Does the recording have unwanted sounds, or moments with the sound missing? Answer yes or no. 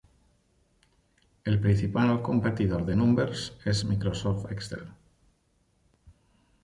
no